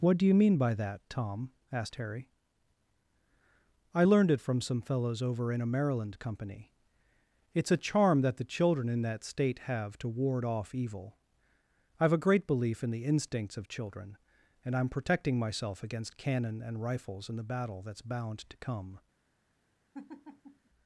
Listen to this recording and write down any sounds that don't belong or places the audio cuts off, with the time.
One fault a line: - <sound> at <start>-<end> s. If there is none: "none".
- laugh at 19.9-20.7 s